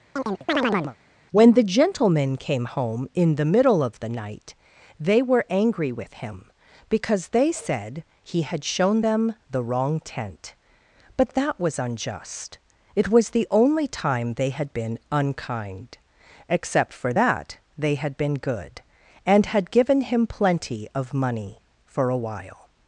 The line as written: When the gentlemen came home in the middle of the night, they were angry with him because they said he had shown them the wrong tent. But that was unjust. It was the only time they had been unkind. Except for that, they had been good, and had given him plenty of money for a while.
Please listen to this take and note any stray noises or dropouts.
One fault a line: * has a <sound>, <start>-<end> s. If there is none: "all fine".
* has a chirp, 0.2-1.0 s